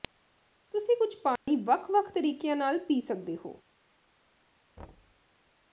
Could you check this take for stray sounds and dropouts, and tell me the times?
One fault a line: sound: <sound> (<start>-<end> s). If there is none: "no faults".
sound: dropout (1.4-1.5 s)
sound: thud (4.8-5.3 s)